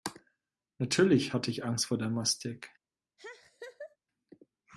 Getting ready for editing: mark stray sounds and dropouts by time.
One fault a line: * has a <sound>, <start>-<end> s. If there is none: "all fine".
* has a laugh, 3.2-4.0 s